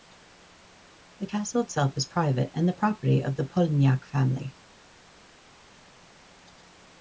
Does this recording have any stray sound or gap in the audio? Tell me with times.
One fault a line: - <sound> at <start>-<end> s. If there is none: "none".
none